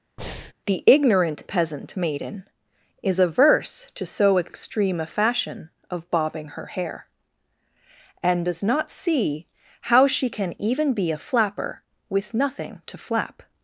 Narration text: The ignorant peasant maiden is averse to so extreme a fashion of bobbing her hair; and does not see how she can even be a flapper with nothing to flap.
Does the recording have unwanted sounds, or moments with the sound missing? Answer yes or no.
yes